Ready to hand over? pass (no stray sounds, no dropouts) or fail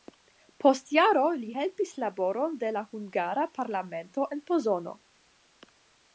pass